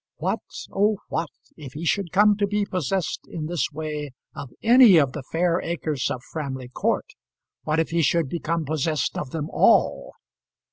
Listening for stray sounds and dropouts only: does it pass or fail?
pass